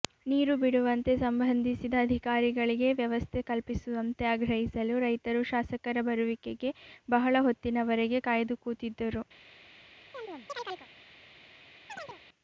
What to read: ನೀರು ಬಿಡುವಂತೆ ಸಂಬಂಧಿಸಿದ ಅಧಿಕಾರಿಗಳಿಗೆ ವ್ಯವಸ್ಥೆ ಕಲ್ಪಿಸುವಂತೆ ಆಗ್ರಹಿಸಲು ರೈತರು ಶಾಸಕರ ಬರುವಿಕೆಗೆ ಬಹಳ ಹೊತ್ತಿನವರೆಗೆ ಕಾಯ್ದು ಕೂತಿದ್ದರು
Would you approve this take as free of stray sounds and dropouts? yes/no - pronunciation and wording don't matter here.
no